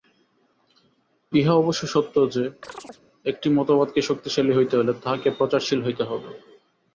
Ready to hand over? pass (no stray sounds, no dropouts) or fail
fail